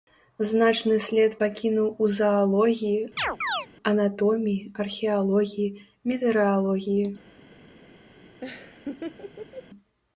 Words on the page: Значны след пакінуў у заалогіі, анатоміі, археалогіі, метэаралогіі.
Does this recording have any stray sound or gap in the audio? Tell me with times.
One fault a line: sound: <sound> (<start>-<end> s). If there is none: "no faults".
sound: chirp (3.2-3.7 s)
sound: laugh (8.4-9.7 s)